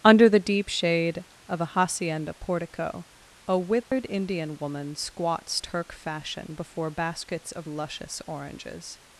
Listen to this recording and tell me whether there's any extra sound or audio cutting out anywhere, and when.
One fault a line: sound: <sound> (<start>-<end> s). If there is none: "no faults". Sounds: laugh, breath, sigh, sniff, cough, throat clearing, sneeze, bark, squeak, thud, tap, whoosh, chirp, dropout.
sound: dropout (3.8-3.9 s)